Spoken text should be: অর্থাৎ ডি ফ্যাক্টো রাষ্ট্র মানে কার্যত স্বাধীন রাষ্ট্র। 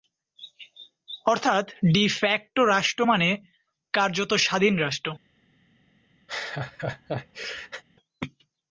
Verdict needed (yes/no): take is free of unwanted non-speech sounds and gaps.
no